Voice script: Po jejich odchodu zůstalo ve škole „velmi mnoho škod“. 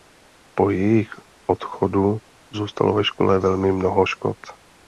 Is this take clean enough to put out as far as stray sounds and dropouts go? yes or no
yes